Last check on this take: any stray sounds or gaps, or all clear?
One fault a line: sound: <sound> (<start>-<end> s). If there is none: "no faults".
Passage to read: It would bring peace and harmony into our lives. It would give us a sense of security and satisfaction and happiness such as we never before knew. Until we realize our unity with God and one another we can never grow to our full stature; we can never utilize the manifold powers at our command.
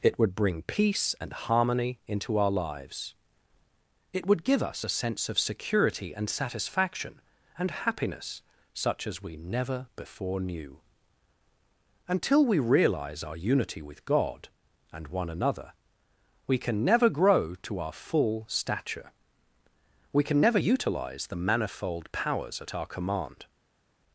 no faults